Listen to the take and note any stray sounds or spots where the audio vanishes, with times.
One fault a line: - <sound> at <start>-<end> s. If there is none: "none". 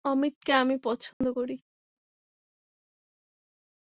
- dropout at 1.1-1.2 s